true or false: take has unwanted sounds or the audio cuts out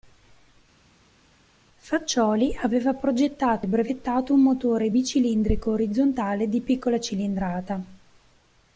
false